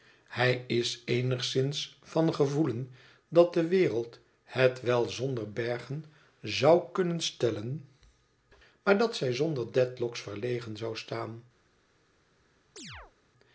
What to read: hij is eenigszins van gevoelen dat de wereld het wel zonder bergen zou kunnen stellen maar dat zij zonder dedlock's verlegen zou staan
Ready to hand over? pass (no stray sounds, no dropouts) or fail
fail